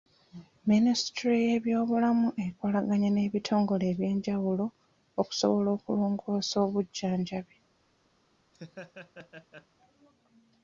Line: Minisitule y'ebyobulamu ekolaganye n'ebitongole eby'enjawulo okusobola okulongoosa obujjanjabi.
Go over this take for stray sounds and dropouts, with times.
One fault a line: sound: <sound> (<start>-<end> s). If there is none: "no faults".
sound: laugh (8.5-9.7 s)